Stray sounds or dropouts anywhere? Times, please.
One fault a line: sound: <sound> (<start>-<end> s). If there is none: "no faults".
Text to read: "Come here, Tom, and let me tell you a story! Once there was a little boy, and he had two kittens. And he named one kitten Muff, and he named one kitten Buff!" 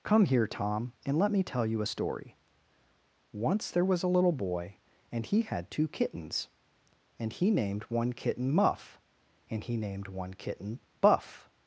no faults